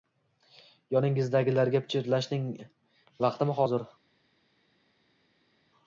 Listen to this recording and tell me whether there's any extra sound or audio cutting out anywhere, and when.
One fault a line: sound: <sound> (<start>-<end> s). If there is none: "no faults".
no faults